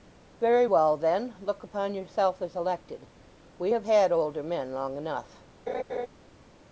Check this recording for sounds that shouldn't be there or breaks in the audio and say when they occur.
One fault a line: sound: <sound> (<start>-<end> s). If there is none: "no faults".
sound: laugh (5.7-6.1 s)